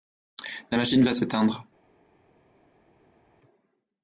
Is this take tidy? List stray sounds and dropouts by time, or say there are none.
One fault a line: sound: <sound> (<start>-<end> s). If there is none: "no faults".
no faults